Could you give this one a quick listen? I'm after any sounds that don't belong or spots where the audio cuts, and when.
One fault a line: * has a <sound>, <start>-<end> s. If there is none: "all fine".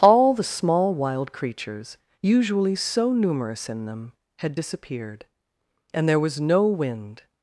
all fine